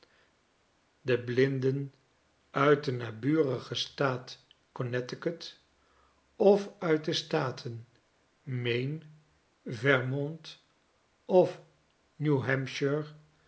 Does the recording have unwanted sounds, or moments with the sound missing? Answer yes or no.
no